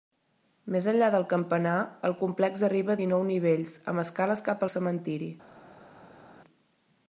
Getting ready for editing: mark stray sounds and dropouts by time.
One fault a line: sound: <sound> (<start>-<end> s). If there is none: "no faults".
no faults